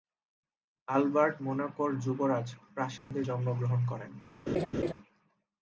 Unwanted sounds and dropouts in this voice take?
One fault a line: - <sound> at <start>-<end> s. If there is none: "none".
- dropout at 3.0-3.1 s
- laugh at 4.5-4.9 s